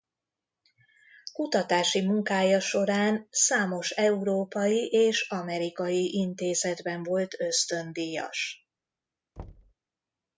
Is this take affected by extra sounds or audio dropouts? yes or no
yes